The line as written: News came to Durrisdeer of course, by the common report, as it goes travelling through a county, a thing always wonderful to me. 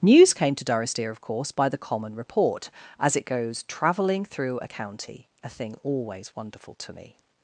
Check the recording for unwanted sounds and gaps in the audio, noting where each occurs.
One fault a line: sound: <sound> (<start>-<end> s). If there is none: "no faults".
no faults